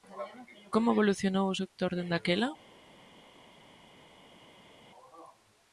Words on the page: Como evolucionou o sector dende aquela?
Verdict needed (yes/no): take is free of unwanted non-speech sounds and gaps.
yes